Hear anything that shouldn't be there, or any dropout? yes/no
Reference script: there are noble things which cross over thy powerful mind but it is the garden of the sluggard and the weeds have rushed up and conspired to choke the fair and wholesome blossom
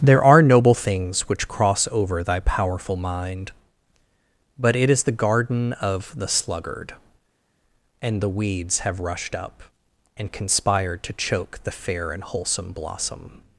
no